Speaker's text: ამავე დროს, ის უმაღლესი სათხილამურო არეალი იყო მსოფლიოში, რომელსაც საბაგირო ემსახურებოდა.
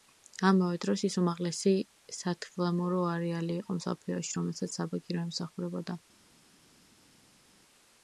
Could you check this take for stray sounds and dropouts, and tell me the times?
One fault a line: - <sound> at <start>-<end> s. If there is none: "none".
none